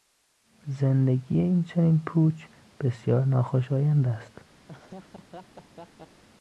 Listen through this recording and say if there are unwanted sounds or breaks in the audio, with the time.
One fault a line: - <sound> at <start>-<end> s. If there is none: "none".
- laugh at 4.7-6.2 s